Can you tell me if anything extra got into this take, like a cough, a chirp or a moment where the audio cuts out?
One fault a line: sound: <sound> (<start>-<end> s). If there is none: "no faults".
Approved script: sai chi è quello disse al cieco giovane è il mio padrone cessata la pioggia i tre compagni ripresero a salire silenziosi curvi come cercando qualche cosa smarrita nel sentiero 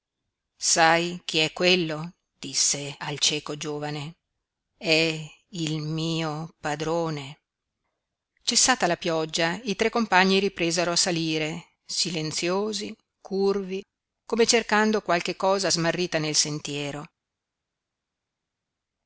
no faults